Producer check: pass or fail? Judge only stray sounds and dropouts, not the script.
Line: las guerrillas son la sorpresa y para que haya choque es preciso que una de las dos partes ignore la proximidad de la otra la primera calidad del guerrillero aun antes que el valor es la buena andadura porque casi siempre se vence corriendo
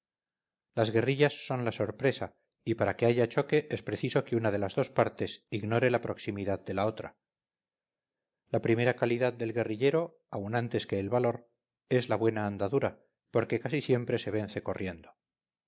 pass